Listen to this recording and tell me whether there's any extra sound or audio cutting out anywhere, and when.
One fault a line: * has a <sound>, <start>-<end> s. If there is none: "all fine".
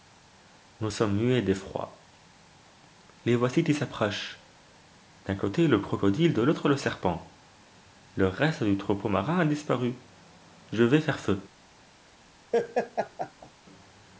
* has a laugh, 12.5-13.5 s